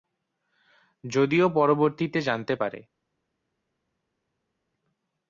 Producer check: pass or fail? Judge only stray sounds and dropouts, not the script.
pass